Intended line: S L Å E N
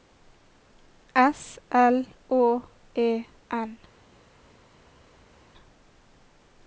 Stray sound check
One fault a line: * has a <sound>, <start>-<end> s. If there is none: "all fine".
all fine